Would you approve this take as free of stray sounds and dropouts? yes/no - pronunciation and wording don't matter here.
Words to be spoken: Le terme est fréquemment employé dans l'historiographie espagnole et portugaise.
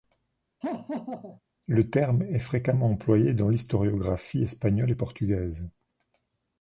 no